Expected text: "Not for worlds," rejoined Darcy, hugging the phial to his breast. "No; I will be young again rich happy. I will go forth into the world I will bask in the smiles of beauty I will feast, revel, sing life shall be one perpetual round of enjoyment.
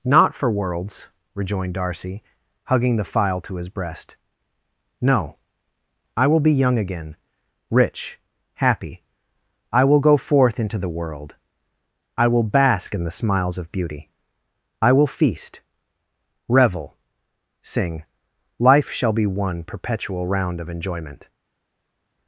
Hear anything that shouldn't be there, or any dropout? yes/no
no